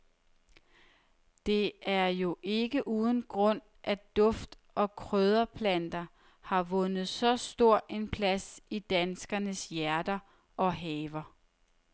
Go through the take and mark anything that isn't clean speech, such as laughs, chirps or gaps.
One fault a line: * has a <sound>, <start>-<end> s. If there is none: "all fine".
all fine